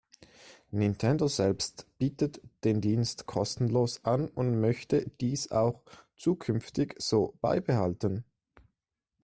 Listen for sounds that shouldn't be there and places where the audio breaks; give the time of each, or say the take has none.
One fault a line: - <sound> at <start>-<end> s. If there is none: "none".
none